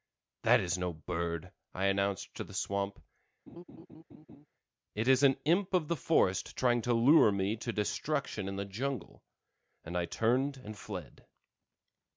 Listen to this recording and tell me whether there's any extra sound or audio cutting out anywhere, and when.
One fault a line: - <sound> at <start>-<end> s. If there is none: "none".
- laugh at 3.5-4.5 s